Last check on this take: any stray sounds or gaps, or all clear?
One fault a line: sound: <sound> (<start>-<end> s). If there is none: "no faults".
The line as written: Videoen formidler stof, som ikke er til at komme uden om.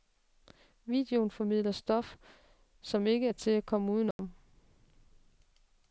sound: dropout (4.1-4.2 s)